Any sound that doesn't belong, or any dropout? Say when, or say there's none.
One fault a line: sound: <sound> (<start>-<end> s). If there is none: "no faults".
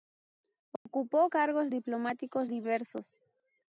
sound: dropout (0.8-0.9 s)